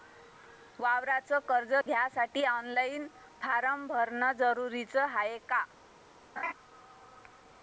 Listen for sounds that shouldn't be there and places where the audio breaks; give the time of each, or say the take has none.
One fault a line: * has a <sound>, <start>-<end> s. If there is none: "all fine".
* has a dropout, 1.8-1.9 s
* has a laugh, 6.4-6.5 s